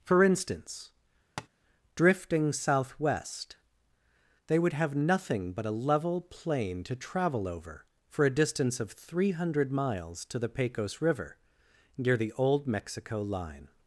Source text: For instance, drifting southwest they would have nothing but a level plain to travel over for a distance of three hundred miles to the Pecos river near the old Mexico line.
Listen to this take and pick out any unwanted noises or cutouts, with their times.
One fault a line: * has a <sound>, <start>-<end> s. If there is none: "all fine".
* has a tap, 1.4-1.5 s